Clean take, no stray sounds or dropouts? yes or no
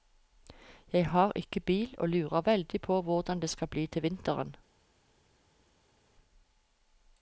yes